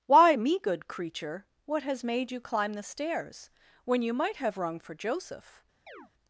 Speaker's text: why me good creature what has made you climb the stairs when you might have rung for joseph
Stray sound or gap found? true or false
true